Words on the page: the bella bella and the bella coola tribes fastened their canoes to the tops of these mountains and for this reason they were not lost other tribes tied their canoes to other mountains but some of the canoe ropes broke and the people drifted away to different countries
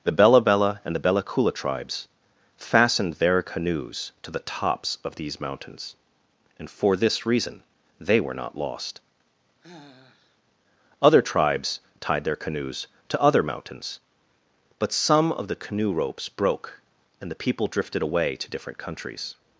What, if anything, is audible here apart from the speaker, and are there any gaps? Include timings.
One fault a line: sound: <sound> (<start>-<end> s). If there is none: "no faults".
sound: sigh (9.6-10.4 s)